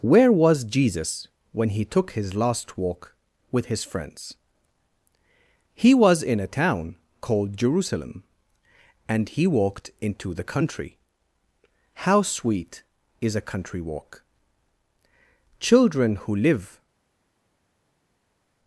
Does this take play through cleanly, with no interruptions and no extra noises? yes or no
yes